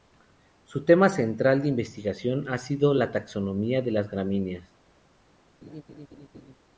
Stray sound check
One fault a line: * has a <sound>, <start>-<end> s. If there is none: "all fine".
* has a laugh, 5.6-6.5 s